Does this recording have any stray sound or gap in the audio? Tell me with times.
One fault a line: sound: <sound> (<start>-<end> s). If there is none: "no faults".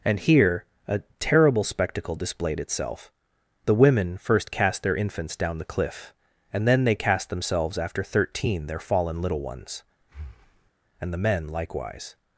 sound: breath (10.0-10.7 s)